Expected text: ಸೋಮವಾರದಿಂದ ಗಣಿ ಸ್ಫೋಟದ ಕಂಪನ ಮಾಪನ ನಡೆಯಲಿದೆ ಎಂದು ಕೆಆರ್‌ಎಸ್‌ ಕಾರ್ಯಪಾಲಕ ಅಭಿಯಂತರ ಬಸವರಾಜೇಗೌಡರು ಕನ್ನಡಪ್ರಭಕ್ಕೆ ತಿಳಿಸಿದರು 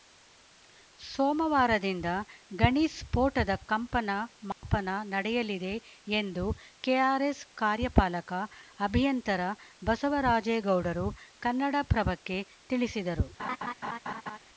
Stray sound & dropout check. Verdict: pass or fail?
fail